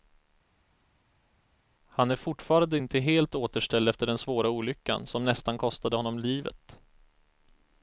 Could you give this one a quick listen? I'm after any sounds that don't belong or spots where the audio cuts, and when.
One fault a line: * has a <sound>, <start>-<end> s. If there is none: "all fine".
all fine